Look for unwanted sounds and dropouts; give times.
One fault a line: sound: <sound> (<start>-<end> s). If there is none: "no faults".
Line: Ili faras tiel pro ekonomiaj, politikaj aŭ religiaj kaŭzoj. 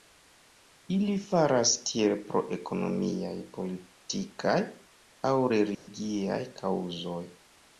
sound: dropout (5.7-5.9 s)